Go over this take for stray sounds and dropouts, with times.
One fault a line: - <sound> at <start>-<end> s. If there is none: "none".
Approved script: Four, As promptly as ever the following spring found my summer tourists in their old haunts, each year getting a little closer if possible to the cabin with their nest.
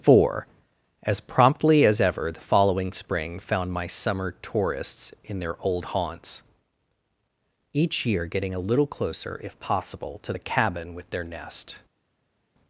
none